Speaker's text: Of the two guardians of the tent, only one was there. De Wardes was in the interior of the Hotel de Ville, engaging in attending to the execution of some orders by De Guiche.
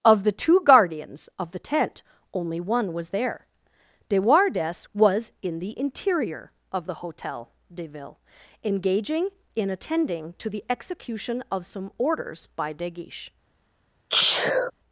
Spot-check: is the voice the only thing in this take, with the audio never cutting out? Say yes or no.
no